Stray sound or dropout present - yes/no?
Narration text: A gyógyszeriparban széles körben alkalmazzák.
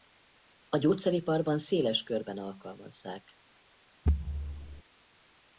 yes